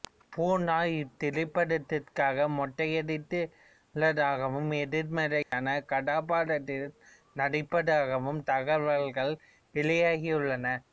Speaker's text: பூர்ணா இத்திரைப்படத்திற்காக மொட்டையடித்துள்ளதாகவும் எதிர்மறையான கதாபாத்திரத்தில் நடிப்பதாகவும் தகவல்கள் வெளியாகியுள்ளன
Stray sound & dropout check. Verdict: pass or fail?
fail